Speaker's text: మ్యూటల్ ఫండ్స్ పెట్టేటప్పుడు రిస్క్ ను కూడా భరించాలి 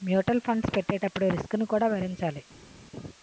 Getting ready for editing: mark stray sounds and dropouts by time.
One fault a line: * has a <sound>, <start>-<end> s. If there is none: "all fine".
all fine